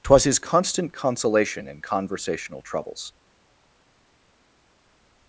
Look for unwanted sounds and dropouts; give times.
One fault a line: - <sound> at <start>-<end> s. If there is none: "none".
none